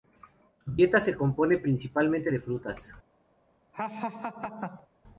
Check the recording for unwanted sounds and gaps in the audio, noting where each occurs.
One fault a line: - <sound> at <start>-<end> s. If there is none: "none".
- laugh at 3.7-4.9 s